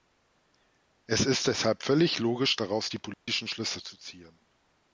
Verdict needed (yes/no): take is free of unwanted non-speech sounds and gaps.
no